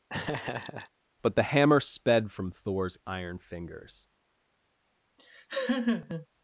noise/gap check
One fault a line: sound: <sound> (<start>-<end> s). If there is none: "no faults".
sound: laugh (0.1-0.9 s)
sound: laugh (5.2-6.3 s)